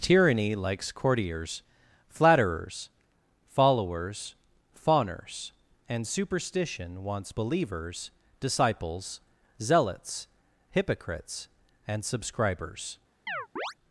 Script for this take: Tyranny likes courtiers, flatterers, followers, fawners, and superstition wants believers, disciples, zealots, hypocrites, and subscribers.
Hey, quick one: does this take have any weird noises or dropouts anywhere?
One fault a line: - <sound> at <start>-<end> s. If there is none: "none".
- chirp at 13.3-13.7 s